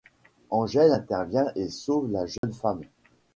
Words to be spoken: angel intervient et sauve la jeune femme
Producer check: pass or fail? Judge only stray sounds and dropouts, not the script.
fail